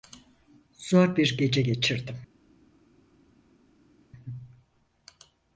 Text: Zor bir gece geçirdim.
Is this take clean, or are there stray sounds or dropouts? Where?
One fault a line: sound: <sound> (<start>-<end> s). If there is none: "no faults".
no faults